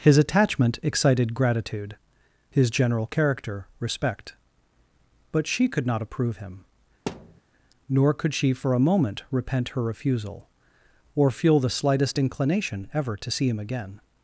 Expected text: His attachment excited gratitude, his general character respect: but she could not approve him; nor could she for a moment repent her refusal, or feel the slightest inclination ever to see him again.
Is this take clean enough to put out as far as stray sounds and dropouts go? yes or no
no